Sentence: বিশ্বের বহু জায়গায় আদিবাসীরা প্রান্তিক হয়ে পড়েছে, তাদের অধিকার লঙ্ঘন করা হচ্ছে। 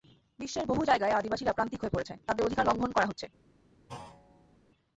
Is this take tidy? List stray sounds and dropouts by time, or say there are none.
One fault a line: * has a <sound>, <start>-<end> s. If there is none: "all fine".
* has a thud, 3.9-4.6 s